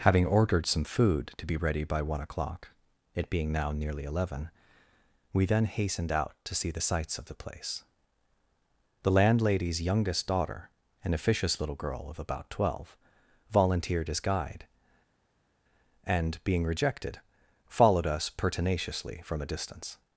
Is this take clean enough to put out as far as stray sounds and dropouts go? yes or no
yes